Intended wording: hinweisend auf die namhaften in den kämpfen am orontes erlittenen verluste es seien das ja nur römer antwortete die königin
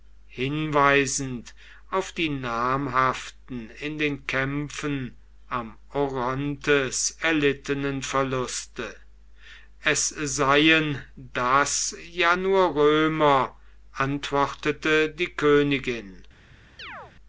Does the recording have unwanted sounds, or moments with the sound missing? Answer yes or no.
yes